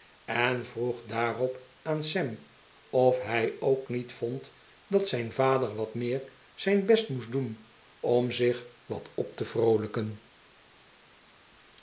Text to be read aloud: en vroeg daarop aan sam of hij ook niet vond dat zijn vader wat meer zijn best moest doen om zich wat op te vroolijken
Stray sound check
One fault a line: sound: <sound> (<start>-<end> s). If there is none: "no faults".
no faults